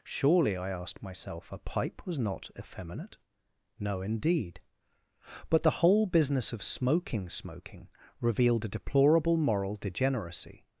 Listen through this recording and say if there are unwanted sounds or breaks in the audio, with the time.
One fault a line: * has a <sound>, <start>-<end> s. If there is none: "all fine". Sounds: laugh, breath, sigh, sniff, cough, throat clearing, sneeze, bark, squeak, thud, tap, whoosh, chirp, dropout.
all fine